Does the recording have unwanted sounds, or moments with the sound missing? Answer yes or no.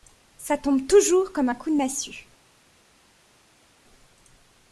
no